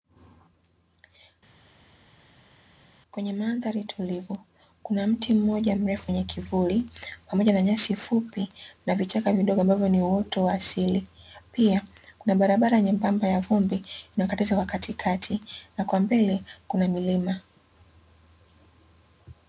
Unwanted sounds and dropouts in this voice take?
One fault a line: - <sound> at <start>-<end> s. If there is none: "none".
none